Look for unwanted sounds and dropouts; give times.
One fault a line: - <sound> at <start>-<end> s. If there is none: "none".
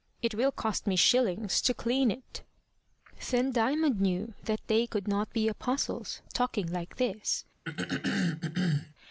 - throat clearing at 7.6-8.9 s